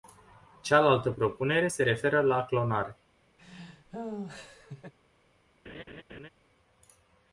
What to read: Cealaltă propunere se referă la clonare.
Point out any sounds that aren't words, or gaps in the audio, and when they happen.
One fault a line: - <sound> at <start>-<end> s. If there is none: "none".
- laugh at 3.4-4.9 s
- laugh at 5.7-6.3 s